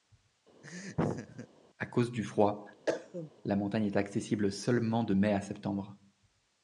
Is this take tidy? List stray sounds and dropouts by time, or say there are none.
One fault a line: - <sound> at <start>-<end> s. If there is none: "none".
- laugh at 0.6-1.5 s
- cough at 2.9-3.3 s